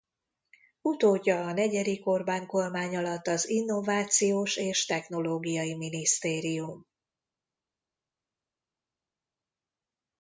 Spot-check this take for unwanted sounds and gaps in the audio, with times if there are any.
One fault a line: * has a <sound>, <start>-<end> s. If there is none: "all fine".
all fine